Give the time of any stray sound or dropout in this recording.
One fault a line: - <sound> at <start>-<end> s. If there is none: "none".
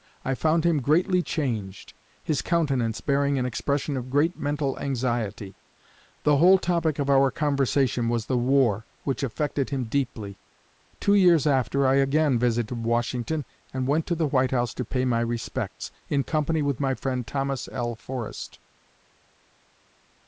none